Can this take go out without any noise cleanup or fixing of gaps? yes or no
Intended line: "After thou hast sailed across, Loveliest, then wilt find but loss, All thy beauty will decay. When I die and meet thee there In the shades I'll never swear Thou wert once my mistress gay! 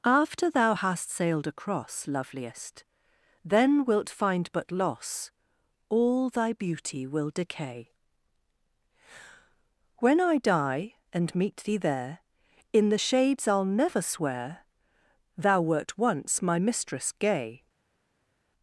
yes